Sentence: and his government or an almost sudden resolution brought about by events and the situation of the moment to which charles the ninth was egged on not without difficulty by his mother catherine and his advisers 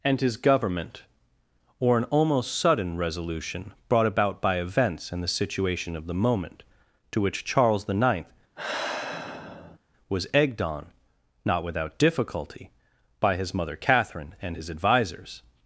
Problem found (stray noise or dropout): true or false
true